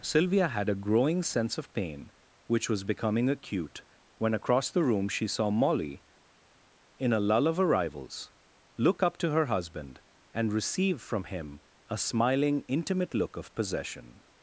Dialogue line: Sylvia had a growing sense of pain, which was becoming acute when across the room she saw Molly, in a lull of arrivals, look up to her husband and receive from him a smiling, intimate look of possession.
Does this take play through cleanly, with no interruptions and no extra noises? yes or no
yes